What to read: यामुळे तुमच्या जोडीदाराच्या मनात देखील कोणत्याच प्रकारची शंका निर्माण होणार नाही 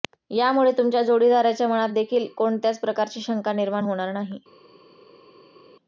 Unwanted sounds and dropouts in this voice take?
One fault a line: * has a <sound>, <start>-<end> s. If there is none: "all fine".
all fine